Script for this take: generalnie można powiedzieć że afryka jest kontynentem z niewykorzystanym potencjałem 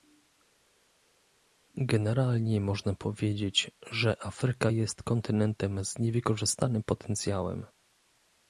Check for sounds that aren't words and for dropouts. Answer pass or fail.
pass